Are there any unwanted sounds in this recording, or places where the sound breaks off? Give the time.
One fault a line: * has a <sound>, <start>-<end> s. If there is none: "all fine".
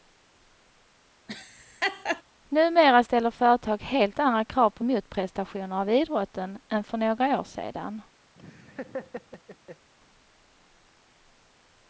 * has a laugh, 1.3-2.2 s
* has a laugh, 8.3-9.9 s